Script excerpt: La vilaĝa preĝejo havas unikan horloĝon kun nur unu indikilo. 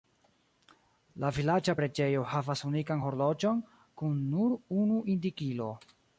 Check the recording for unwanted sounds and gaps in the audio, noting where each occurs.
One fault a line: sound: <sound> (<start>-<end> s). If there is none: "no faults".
no faults